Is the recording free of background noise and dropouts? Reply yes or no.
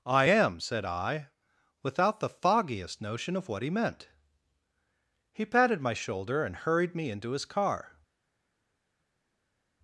yes